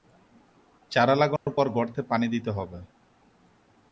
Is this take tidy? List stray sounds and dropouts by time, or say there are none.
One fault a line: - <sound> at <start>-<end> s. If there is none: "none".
- dropout at 1.4-1.5 s